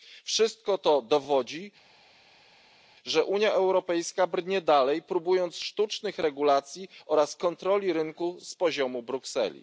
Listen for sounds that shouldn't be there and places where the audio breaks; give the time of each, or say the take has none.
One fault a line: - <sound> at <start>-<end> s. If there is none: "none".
none